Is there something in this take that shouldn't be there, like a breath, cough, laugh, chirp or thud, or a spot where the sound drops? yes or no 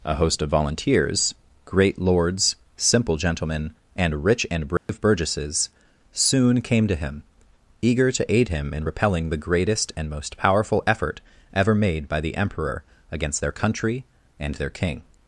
yes